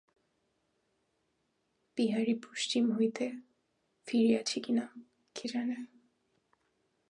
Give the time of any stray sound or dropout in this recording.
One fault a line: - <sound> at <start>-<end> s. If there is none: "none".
none